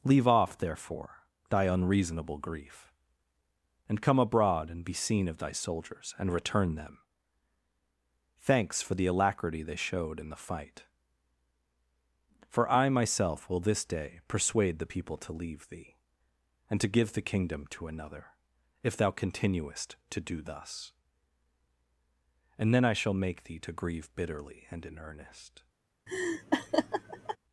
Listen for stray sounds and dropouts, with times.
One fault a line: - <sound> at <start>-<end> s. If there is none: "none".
- laugh at 26.1-27.4 s